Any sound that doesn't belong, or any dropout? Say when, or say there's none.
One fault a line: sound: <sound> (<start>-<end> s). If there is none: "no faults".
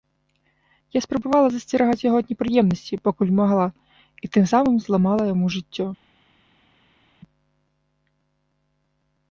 no faults